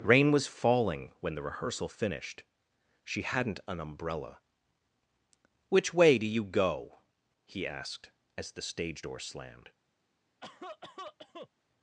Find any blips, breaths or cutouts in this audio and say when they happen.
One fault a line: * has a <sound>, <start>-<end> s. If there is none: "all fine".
* has a cough, 10.4-11.5 s